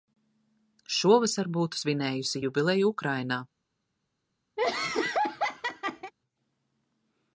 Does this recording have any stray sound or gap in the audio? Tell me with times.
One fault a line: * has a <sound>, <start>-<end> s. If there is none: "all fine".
* has a laugh, 4.6-6.1 s